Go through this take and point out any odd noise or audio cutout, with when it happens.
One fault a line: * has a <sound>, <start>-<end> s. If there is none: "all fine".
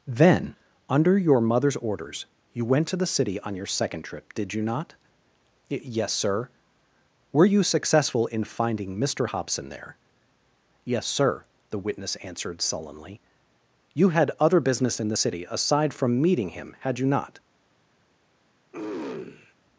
* has a throat clearing, 18.7-19.5 s